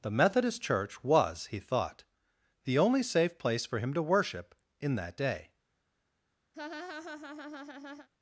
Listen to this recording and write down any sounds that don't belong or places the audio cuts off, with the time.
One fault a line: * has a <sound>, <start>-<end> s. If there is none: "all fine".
* has a laugh, 6.5-8.1 s